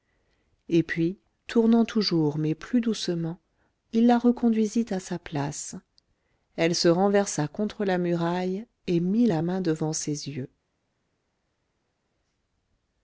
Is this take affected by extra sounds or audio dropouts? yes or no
no